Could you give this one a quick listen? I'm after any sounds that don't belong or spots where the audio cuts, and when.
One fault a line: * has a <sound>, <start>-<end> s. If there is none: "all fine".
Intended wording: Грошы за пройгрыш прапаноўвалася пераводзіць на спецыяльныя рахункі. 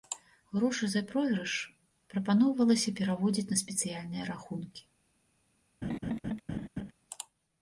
* has a laugh, 5.8-6.9 s